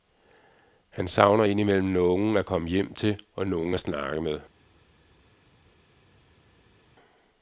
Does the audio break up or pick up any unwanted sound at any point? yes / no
no